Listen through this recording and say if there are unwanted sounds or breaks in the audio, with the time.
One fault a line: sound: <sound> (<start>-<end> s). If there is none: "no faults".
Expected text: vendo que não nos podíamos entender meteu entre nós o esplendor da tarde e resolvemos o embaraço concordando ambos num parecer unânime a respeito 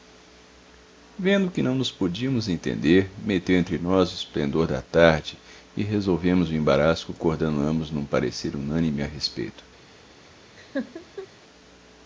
sound: laugh (10.6-11.3 s)